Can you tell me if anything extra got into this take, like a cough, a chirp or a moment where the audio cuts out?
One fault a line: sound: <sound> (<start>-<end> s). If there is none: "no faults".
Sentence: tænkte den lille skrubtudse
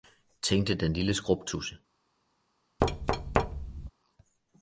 sound: thud (2.8-3.9 s)